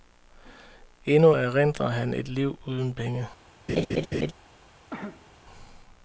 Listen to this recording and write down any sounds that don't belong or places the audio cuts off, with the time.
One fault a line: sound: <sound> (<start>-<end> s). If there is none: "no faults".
sound: laugh (3.7-4.3 s)
sound: cough (4.9-5.3 s)